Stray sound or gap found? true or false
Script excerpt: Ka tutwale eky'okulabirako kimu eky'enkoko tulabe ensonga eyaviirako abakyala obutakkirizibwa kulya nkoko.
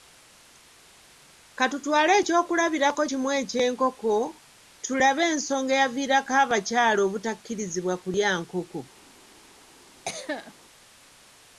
true